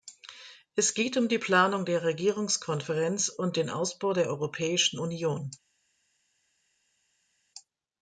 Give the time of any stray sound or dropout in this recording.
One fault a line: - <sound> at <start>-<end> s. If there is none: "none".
none